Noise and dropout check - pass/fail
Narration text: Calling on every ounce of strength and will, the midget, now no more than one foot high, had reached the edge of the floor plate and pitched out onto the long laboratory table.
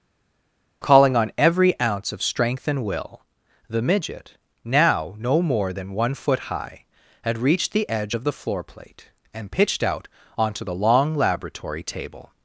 pass